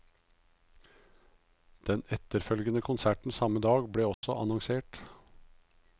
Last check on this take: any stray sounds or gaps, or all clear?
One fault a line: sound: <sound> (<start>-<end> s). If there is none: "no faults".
sound: dropout (4.1-4.2 s)